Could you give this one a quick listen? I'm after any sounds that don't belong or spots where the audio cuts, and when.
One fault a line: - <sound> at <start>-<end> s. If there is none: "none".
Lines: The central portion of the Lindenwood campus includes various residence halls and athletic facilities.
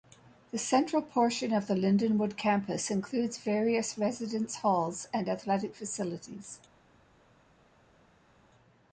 none